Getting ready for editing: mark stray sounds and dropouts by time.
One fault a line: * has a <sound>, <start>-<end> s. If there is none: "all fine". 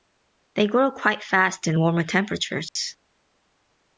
* has a dropout, 2.7-2.8 s